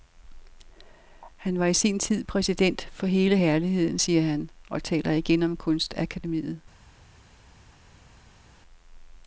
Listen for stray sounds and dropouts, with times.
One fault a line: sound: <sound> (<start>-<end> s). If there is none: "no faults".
no faults